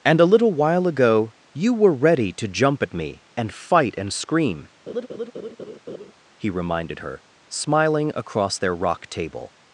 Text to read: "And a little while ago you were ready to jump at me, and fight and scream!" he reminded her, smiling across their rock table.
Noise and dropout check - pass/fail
fail